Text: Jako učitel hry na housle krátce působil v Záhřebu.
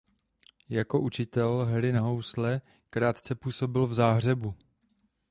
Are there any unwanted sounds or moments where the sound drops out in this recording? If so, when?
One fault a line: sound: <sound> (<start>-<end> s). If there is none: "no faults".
no faults